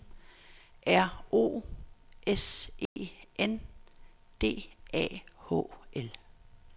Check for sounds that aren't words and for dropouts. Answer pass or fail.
fail